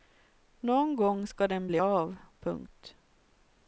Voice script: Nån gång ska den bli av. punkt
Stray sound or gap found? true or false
false